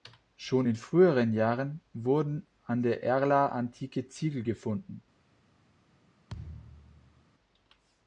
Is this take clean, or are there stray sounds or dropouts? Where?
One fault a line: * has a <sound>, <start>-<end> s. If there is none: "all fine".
* has a thud, 6.3-7.3 s